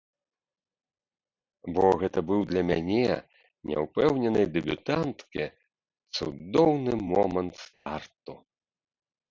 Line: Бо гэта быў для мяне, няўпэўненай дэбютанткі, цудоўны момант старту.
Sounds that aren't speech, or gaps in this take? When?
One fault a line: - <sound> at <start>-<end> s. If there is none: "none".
- dropout at 7.7-7.9 s